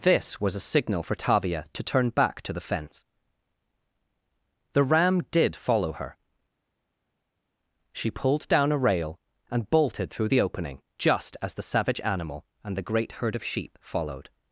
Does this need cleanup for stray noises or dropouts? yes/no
no